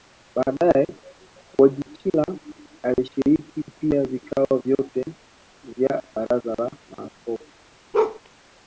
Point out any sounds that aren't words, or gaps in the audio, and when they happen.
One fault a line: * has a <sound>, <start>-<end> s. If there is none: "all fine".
* has a bark, 7.9-8.2 s